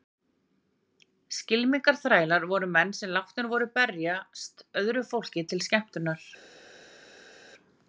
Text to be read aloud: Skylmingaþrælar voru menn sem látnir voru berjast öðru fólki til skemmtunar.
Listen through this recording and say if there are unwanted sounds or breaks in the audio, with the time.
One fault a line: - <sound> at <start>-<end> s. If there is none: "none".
none